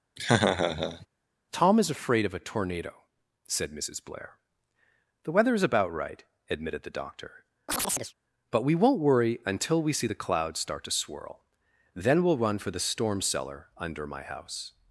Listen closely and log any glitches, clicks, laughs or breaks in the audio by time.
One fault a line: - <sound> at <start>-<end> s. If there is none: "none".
- laugh at 0.2-1.1 s
- chirp at 7.7-8.1 s